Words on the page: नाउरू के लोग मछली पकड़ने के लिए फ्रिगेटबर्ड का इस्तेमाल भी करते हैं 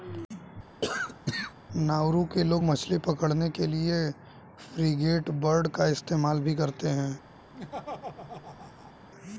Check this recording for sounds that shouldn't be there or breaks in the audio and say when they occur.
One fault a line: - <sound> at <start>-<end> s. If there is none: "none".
- cough at 0.8-1.5 s
- laugh at 7.5-8.9 s